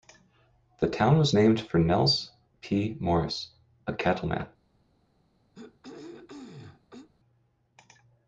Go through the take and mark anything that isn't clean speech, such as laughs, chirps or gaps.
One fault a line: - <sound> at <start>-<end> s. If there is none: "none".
- throat clearing at 5.5-7.1 s